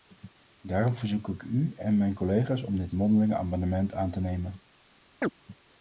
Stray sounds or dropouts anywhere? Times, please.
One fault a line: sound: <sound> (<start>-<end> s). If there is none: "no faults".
sound: chirp (5.2-5.3 s)